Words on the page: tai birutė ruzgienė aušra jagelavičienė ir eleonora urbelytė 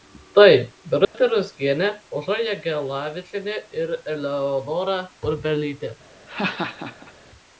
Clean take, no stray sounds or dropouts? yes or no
no